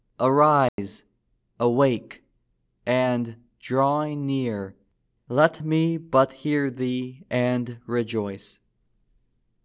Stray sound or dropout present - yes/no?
yes